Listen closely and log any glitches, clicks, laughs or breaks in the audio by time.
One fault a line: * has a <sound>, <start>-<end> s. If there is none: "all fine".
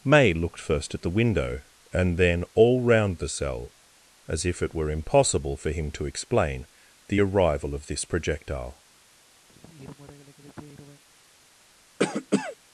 * has a sigh, 9.5-11.0 s
* has a cough, 12.0-12.6 s